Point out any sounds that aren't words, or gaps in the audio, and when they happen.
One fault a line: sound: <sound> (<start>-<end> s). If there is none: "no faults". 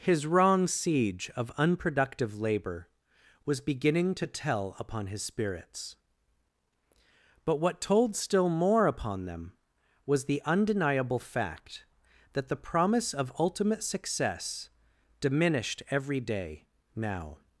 no faults